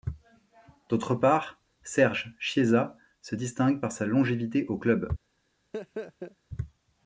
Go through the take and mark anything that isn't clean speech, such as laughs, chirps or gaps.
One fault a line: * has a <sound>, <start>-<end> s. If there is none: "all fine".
* has a laugh, 5.7-6.4 s